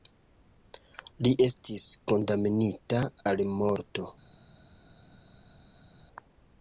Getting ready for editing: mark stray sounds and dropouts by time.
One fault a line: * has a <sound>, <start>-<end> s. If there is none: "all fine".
all fine